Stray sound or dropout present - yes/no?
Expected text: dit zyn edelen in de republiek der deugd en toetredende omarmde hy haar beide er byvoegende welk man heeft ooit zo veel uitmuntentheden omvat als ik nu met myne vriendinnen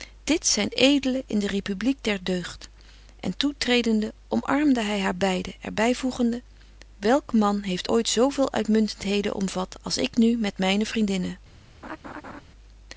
yes